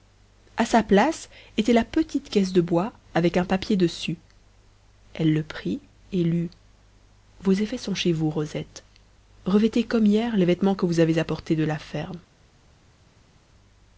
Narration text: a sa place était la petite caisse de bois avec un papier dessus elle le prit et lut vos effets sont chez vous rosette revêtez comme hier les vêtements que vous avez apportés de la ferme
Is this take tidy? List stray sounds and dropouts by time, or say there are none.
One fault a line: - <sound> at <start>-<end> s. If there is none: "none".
none